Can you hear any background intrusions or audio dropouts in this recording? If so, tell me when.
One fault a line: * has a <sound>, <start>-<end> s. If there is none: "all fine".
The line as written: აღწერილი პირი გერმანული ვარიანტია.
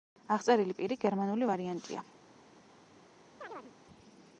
* has a chirp, 3.4-3.7 s